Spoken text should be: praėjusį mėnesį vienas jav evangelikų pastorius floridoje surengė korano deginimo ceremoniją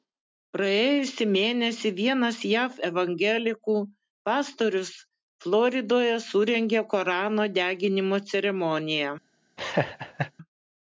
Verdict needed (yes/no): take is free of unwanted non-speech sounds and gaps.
no